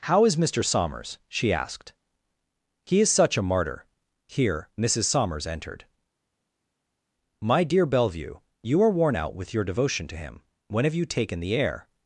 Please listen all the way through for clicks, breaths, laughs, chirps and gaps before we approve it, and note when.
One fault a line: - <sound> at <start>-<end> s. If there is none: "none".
none